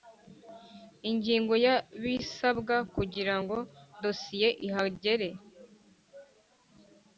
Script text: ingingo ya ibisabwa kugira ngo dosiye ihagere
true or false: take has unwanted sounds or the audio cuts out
false